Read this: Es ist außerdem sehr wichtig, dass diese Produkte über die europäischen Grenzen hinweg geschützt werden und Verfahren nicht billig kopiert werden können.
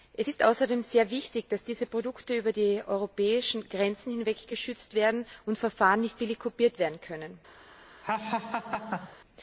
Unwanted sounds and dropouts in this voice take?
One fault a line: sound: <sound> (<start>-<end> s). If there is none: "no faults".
sound: laugh (8.0-9.2 s)